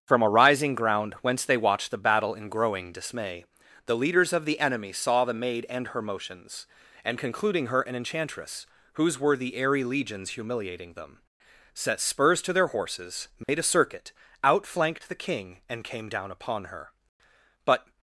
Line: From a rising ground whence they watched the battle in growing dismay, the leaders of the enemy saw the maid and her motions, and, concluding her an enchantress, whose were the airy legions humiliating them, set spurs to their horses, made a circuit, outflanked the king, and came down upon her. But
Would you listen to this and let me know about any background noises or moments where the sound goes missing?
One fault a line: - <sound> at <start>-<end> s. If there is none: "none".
- dropout at 13.4-13.5 s